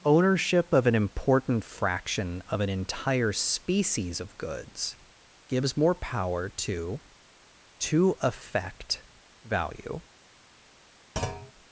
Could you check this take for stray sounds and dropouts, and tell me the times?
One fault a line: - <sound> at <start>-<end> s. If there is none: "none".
- thud at 11.2-11.5 s